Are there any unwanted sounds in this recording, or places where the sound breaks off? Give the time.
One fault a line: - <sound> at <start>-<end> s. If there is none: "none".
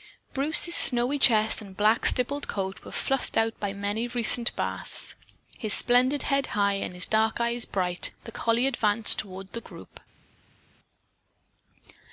none